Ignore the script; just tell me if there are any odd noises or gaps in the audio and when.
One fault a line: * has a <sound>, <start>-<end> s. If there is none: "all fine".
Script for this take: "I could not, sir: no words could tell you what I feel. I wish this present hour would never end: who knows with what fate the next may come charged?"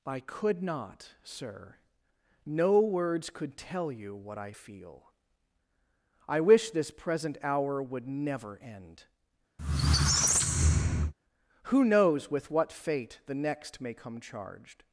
* has a squeak, 9.6-11.1 s